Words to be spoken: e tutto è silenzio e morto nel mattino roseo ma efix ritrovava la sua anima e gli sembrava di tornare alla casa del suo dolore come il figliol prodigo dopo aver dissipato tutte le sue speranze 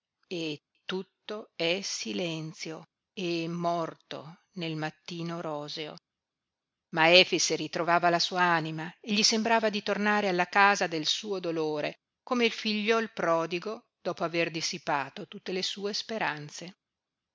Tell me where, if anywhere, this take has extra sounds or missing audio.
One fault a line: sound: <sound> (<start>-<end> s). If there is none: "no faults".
no faults